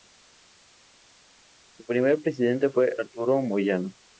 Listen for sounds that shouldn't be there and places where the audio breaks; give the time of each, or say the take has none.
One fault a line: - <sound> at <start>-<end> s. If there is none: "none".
none